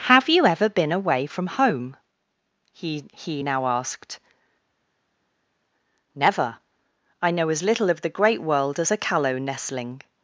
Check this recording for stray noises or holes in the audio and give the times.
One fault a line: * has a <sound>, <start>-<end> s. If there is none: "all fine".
all fine